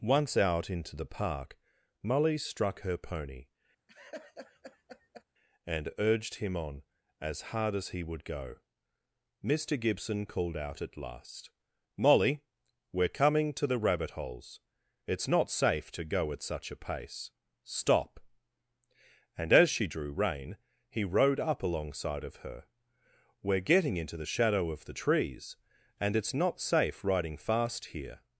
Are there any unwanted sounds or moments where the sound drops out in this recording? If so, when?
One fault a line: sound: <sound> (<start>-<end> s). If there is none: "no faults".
sound: laugh (3.9-5.2 s)